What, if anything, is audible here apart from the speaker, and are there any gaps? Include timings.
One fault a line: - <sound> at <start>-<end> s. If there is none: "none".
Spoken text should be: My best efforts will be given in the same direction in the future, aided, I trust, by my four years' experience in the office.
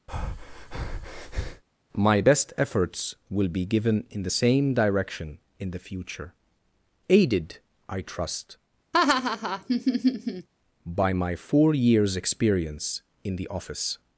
- breath at 0.1-1.6 s
- laugh at 8.9-10.5 s